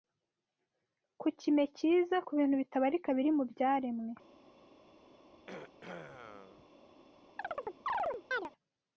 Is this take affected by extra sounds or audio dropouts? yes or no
yes